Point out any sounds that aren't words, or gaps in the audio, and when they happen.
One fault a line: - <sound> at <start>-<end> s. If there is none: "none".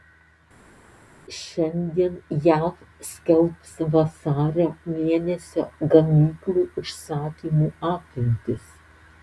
none